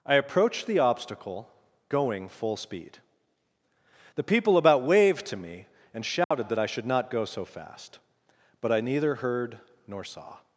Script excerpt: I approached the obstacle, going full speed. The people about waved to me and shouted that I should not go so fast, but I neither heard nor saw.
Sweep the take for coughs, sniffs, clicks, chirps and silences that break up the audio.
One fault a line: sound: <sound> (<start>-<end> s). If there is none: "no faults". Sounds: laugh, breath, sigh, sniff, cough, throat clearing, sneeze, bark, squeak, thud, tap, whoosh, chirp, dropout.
sound: dropout (6.2-6.3 s)